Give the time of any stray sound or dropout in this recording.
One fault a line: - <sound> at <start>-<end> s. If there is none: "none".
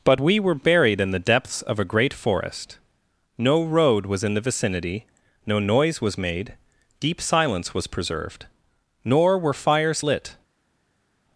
none